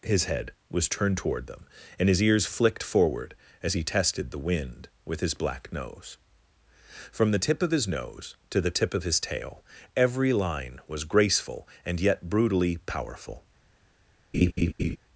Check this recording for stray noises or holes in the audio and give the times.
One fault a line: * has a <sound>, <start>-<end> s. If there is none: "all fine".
* has a laugh, 14.3-15.0 s